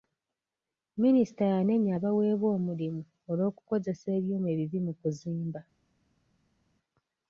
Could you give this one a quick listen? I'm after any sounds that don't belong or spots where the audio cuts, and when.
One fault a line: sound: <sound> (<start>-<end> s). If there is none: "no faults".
no faults